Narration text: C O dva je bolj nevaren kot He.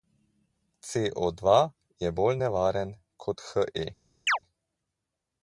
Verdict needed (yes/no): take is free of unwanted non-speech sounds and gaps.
no